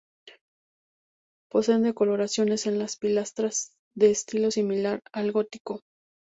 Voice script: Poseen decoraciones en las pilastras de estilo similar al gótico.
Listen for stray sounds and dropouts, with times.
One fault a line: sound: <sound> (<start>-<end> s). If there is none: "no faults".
no faults